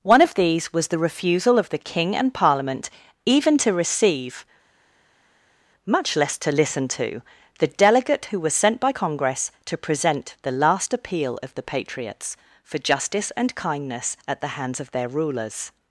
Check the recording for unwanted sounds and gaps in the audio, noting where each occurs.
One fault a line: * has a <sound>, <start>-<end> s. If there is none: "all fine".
all fine